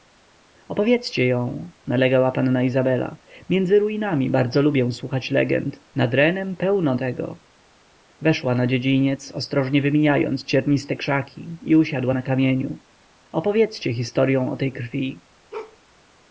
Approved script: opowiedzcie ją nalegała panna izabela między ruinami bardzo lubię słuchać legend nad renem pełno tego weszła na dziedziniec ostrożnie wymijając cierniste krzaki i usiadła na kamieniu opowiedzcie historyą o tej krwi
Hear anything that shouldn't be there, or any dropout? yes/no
yes